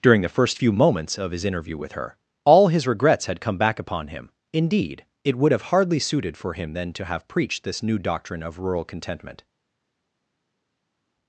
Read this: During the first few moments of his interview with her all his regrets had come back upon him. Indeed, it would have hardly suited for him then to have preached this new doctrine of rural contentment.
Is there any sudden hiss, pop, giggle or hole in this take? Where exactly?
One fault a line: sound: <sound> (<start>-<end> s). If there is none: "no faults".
no faults